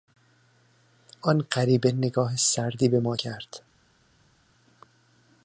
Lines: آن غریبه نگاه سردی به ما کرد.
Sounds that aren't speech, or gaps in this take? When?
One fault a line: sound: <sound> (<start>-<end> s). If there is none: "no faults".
no faults